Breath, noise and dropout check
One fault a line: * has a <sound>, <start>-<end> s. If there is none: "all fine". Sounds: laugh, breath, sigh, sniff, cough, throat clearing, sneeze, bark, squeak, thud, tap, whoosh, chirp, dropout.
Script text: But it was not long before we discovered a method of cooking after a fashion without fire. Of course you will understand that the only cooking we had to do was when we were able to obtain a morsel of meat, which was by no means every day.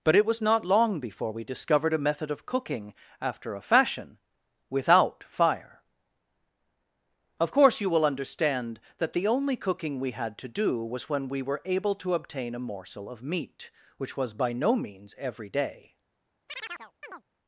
* has a chirp, 16.5-17.2 s